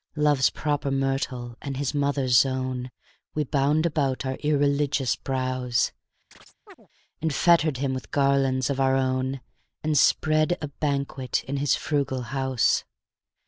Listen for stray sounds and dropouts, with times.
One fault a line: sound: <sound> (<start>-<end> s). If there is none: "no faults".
sound: chirp (6.3-6.9 s)